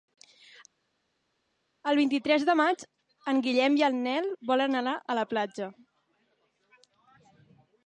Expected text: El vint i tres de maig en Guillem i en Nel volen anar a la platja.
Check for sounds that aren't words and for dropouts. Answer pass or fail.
pass